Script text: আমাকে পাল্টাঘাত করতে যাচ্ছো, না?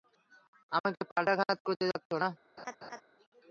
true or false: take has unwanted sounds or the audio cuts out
true